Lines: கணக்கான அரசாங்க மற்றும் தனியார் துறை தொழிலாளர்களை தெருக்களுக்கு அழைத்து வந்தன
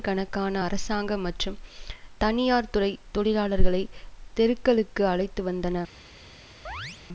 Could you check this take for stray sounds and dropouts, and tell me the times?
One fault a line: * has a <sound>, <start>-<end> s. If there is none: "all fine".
* has a chirp, 6.7-7.0 s